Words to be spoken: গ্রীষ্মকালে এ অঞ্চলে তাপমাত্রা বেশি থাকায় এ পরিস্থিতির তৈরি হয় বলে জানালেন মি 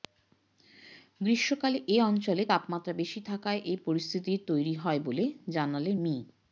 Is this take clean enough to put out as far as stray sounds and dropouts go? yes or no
yes